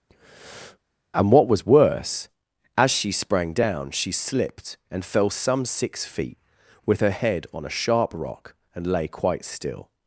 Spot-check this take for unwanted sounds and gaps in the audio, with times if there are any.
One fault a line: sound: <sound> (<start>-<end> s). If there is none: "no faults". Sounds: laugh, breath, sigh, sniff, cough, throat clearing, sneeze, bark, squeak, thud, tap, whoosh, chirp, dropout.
sound: breath (0.1-0.8 s)